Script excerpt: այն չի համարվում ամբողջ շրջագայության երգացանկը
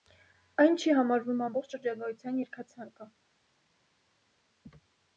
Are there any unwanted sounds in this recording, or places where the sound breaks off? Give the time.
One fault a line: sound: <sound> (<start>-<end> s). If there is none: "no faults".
no faults